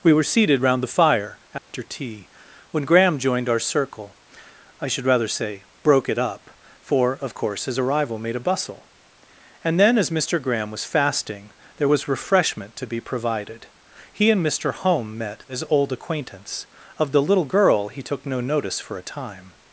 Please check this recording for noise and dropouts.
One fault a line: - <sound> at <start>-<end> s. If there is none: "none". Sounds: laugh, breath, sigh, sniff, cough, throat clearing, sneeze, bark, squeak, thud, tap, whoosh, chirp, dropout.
- dropout at 1.6-1.7 s